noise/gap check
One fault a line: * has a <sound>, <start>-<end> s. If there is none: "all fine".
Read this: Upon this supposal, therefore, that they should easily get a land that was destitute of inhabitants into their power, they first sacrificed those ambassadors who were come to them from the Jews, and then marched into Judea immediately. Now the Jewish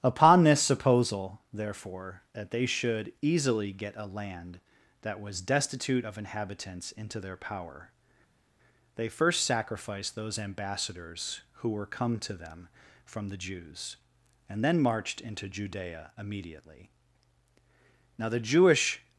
all fine